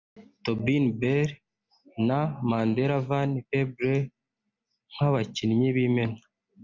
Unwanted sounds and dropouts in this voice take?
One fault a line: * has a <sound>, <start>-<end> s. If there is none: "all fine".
all fine